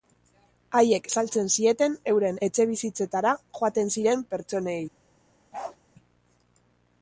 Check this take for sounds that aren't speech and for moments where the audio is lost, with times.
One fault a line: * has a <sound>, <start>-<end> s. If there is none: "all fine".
* has a bark, 5.5-5.8 s